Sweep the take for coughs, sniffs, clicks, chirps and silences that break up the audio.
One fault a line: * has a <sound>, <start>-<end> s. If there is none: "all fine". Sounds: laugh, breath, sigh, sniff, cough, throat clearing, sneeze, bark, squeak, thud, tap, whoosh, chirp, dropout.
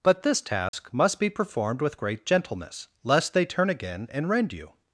* has a dropout, 0.7-0.7 s